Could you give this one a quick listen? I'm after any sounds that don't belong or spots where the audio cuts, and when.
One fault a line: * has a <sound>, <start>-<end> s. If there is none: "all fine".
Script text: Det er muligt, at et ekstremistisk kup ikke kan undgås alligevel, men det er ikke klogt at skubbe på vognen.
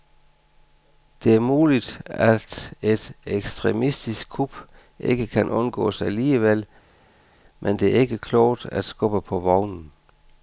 all fine